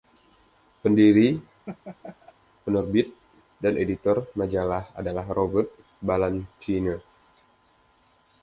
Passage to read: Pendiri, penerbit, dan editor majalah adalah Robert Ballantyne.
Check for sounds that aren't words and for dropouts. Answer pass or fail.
fail